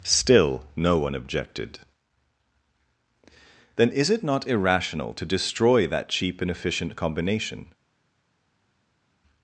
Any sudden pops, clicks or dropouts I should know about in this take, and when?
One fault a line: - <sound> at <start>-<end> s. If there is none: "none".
none